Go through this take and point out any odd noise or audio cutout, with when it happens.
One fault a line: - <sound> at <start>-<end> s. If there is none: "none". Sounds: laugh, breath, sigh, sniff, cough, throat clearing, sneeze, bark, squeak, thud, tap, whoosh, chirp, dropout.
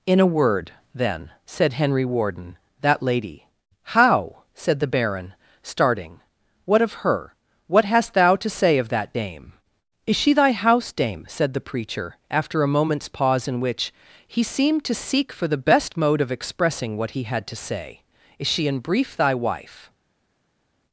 none